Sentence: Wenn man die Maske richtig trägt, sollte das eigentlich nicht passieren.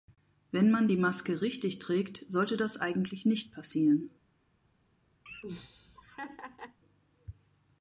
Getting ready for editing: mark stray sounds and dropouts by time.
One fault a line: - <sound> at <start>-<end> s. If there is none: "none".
- laugh at 5.3-6.8 s